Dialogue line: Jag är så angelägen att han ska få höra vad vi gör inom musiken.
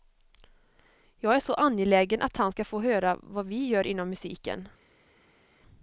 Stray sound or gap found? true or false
false